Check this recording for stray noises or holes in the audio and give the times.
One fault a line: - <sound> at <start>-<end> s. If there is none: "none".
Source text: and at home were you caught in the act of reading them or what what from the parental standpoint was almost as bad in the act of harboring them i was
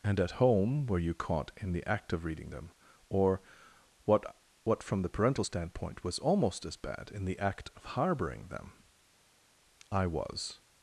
none